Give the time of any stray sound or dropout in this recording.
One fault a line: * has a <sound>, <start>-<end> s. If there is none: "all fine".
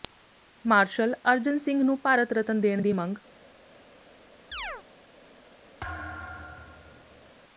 * has a chirp, 4.5-4.8 s
* has a thud, 5.8-7.3 s